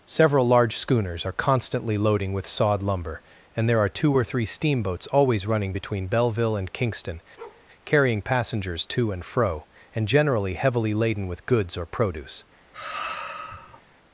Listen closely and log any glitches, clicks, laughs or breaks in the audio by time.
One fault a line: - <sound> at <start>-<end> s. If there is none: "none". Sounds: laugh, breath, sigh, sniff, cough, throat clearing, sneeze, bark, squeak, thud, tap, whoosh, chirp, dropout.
- bark at 7.4-7.7 s
- sigh at 12.7-13.8 s